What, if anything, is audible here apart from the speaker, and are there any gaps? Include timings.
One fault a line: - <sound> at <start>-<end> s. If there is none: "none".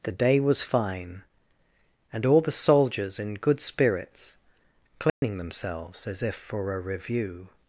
- dropout at 5.1-5.2 s